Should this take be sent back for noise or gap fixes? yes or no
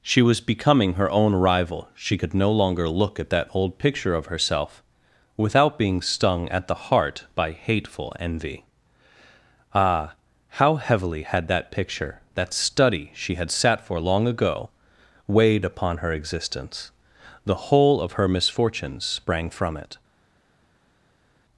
no